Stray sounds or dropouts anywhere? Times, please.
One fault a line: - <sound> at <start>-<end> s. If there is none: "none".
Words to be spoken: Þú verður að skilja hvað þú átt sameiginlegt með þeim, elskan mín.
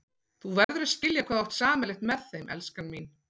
- dropout at 0.6-0.7 s